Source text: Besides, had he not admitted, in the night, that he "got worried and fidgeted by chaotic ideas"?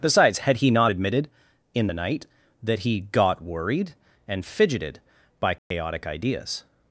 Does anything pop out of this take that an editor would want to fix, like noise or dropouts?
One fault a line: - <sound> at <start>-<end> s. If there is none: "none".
- dropout at 5.6-5.7 s